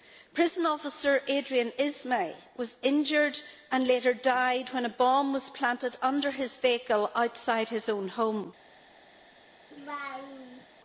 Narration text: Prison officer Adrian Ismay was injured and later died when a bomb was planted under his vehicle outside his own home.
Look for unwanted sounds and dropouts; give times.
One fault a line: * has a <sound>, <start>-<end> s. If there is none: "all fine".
* has a laugh, 9.7-10.7 s